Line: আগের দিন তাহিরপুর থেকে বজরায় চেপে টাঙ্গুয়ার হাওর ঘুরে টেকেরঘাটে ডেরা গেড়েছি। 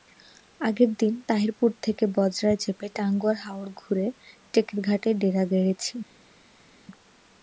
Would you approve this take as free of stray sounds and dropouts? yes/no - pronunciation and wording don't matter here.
yes